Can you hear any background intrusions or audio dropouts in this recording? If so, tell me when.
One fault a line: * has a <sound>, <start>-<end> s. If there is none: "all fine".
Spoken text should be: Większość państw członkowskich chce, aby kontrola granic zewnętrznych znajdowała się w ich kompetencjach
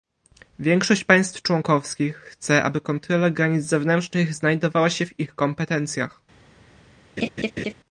* has a laugh, 7.2-7.7 s